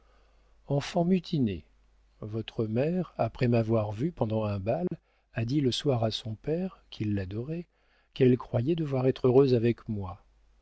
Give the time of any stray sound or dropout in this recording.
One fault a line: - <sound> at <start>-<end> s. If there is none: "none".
- dropout at 4.9-4.9 s